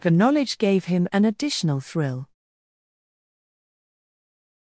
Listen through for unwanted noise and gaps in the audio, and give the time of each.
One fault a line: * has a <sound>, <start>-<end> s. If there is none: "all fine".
all fine